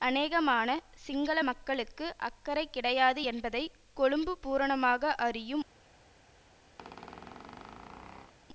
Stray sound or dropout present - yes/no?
yes